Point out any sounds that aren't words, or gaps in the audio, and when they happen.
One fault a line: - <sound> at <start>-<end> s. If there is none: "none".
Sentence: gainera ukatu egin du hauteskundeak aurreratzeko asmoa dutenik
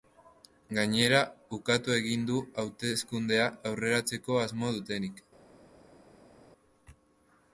none